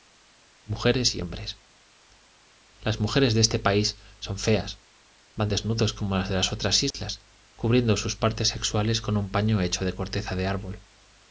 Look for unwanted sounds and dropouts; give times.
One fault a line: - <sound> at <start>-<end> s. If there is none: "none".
- dropout at 6.9-6.9 s